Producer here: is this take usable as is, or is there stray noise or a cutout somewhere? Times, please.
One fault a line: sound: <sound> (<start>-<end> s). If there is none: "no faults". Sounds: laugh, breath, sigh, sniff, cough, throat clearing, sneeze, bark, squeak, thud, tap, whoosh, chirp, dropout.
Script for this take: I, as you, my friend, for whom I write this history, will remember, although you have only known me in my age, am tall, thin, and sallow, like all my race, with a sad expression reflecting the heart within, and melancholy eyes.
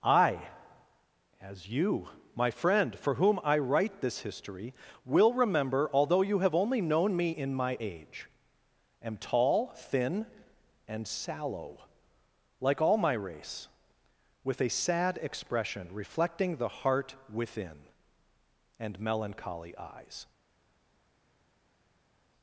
no faults